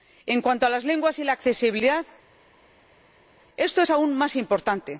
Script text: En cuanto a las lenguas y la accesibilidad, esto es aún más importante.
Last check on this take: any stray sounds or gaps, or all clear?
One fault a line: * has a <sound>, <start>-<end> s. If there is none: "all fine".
all fine